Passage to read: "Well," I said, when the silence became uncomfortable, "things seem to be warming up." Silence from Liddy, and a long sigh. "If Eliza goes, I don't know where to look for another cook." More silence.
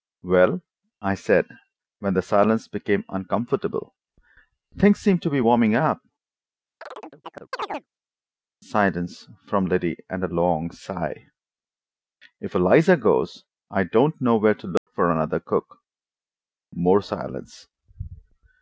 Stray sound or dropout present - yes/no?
yes